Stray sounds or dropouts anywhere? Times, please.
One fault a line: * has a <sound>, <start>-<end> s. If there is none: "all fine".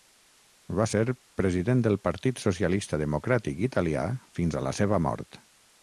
all fine